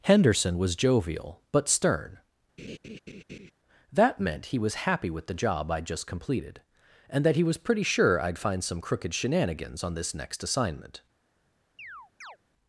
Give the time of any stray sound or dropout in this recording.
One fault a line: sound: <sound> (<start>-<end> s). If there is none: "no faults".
sound: laugh (2.6-3.5 s)
sound: chirp (11.8-12.4 s)